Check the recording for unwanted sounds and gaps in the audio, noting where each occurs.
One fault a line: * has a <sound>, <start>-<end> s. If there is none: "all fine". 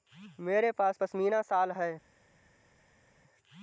all fine